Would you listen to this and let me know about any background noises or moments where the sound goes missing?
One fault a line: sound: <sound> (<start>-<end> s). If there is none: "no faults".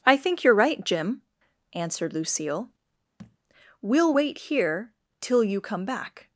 sound: thud (3.2-3.4 s)